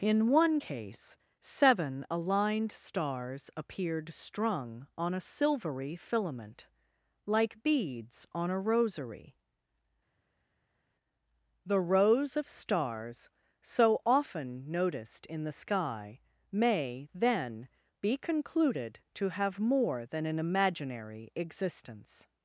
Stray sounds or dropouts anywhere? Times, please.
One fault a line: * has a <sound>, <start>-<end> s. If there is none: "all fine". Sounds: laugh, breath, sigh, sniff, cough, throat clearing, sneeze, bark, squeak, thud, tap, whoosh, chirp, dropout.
all fine